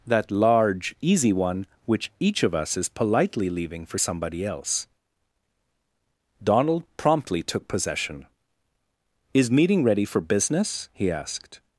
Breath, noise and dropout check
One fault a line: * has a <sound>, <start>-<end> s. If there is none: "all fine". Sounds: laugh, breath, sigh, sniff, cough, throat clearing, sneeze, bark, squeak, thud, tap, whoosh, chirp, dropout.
all fine